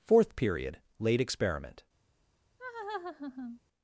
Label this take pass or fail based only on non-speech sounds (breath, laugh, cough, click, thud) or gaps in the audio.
fail